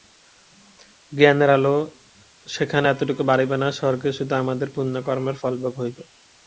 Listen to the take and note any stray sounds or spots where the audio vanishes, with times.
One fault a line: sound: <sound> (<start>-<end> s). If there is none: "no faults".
no faults